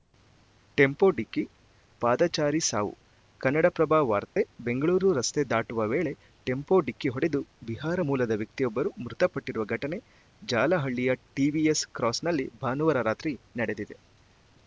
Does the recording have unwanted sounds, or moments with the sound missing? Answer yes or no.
yes